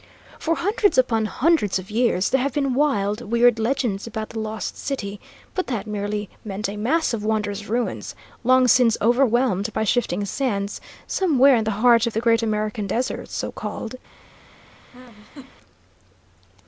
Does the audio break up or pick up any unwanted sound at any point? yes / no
yes